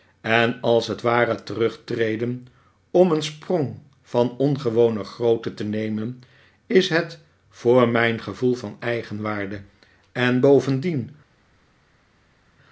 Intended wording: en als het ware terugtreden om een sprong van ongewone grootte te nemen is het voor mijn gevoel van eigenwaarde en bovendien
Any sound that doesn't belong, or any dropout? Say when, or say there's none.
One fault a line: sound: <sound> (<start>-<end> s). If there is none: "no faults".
no faults